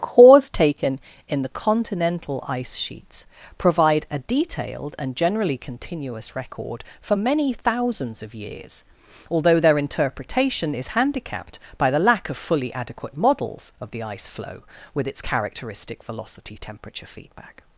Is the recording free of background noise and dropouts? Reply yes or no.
yes